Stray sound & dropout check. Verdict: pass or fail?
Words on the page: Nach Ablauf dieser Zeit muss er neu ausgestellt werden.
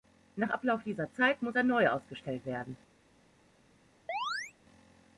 fail